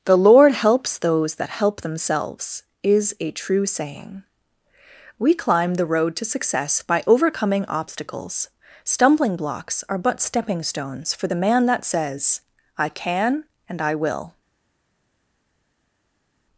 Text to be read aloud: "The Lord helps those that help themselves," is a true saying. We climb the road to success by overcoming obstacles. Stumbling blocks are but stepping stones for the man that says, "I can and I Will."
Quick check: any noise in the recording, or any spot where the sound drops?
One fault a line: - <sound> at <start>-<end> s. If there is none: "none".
none